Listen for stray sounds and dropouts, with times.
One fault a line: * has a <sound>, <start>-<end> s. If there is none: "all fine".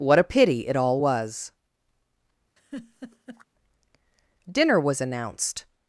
* has a laugh, 2.6-3.5 s